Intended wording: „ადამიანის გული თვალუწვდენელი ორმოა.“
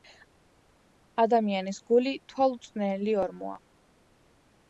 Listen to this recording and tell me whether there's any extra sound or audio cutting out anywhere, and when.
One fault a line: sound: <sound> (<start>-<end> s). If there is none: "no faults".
no faults